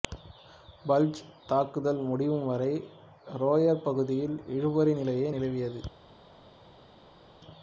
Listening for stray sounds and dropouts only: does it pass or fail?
pass